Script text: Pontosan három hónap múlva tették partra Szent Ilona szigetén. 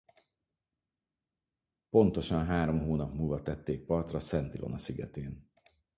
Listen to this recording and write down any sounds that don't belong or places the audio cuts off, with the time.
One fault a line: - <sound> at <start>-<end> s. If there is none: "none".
none